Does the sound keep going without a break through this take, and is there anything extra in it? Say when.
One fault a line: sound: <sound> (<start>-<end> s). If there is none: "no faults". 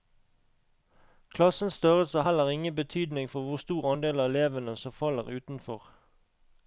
no faults